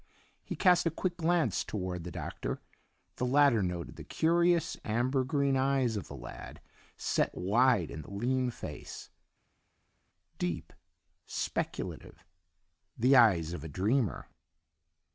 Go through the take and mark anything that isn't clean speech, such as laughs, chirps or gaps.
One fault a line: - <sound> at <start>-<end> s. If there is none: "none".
none